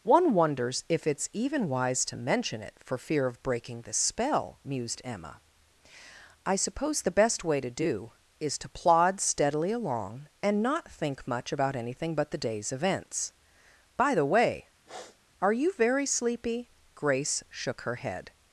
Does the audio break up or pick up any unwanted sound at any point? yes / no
yes